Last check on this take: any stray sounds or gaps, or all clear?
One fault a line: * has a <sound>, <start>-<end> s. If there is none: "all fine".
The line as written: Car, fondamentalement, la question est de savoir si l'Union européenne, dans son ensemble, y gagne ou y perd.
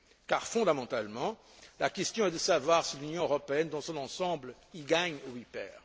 all fine